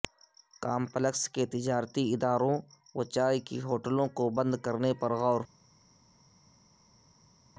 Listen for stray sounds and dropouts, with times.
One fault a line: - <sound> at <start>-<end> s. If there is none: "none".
none